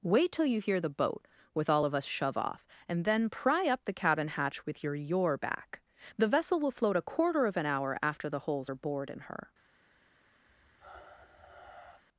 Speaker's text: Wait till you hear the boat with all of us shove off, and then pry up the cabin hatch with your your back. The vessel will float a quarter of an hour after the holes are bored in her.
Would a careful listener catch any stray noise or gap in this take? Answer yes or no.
yes